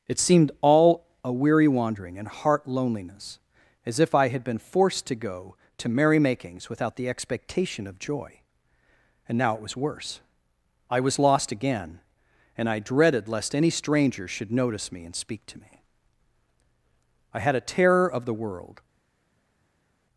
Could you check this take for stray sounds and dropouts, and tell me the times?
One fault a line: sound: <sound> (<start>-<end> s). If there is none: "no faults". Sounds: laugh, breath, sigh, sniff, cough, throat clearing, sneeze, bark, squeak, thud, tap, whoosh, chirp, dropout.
no faults